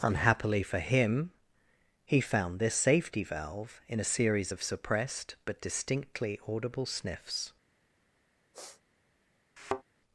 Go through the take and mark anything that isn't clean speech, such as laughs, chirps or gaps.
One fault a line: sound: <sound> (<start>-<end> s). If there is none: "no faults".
sound: sniff (8.5-8.8 s)
sound: thud (9.6-9.8 s)